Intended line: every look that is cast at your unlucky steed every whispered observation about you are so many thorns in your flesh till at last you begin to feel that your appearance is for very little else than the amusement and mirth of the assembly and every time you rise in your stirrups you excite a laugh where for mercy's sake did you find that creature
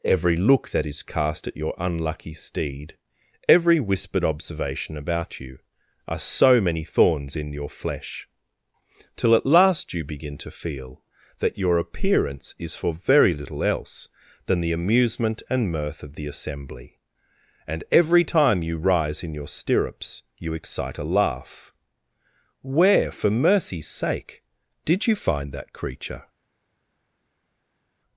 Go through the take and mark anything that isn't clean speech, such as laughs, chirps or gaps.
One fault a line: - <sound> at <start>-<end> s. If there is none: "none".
none